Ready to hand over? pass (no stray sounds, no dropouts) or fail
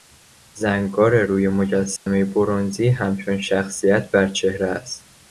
fail